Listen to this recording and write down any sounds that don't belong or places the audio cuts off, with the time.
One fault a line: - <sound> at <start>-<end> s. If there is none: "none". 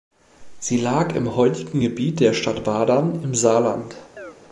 - chirp at 4.2-4.4 s